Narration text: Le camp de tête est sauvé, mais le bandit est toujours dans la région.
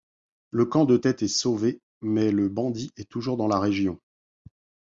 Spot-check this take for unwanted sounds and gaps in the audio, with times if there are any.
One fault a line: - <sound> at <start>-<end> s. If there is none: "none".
none